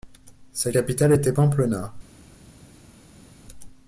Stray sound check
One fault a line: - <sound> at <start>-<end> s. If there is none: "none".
none